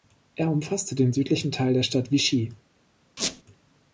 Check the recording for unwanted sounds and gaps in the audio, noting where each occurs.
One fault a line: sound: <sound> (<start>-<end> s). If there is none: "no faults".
sound: squeak (3.2-3.4 s)